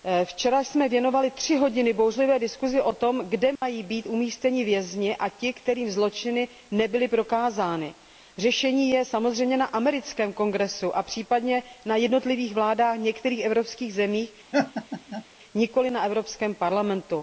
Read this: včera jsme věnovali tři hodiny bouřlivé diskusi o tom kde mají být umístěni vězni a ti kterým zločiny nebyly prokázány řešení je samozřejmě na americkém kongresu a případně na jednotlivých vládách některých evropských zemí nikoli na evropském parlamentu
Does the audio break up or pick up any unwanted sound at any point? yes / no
yes